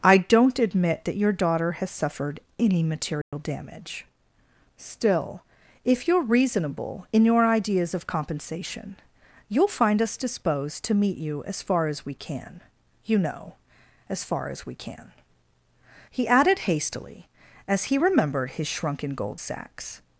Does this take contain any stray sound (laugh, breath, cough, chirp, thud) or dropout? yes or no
yes